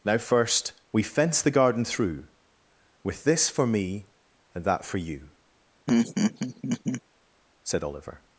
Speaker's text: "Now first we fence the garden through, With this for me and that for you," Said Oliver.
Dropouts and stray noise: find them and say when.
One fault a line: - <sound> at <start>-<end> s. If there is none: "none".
- laugh at 5.9-7.0 s